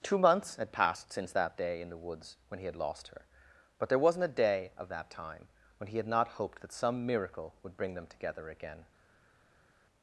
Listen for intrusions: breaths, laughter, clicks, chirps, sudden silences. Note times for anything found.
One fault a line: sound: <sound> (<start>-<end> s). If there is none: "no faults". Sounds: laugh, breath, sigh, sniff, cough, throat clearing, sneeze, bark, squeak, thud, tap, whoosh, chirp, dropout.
no faults